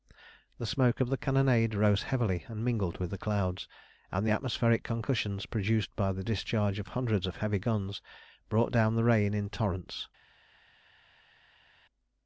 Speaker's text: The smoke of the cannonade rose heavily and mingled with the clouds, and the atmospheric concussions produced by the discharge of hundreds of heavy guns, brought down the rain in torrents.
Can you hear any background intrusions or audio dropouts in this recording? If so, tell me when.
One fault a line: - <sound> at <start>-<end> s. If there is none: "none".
none